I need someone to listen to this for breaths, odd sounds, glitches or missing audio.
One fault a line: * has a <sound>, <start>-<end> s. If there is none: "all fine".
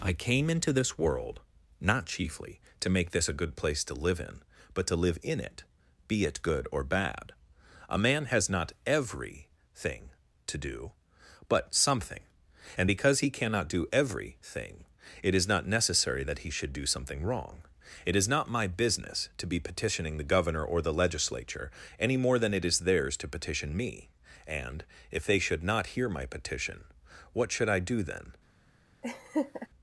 * has a laugh, 29.0-29.7 s